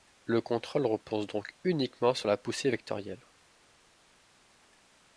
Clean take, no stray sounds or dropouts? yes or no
yes